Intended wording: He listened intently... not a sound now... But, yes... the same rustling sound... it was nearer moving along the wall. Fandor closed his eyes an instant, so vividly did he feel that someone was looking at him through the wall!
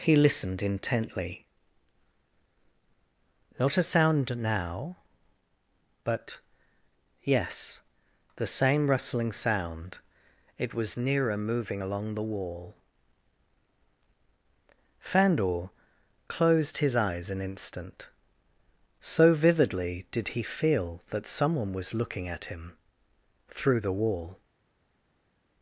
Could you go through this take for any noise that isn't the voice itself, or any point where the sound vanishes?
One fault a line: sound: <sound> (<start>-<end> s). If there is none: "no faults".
no faults